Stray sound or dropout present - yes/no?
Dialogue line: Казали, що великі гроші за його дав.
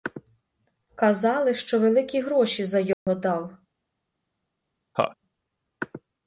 yes